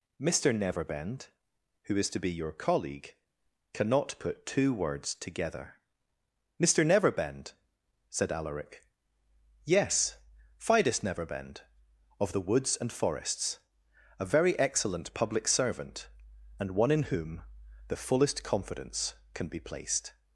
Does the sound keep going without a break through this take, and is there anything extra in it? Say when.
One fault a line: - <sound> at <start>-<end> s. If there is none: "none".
none